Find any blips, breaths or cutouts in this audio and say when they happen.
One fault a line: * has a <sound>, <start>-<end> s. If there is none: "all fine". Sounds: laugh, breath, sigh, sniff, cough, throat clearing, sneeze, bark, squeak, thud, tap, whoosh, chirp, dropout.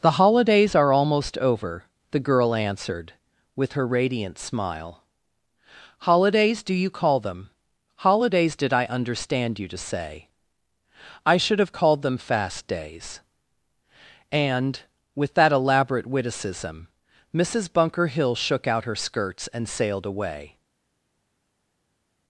all fine